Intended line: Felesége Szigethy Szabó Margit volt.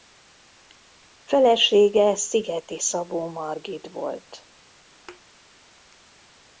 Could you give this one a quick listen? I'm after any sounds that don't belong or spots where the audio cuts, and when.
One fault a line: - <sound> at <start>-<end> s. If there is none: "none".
- thud at 5.1-5.2 s